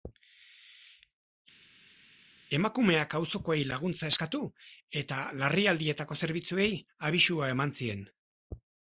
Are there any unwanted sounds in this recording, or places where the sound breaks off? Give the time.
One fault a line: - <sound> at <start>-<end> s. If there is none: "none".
none